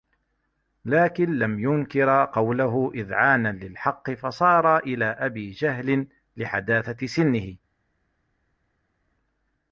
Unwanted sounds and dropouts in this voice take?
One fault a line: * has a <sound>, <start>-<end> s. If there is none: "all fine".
all fine